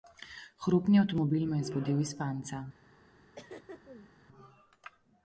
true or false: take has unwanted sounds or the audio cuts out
true